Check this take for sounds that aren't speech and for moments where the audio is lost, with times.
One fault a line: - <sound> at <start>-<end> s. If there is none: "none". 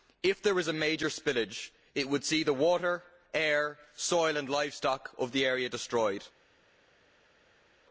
none